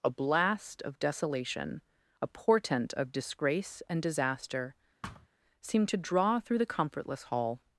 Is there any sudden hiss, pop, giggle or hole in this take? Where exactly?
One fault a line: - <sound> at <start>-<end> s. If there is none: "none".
- thud at 5.0-5.3 s